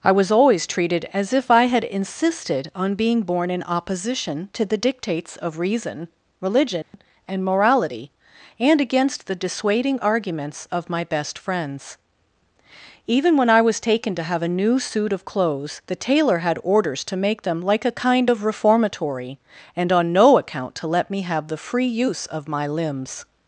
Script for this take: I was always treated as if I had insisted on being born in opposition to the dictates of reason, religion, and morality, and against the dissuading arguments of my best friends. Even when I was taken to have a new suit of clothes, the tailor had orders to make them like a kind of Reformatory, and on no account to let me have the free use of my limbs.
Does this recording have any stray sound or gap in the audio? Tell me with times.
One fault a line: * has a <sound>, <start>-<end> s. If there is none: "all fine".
* has a dropout, 6.8-6.9 s